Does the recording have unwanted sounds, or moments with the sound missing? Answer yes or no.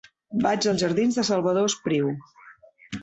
no